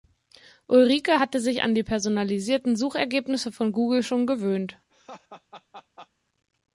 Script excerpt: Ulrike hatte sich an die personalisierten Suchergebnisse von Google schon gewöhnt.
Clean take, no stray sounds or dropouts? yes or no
no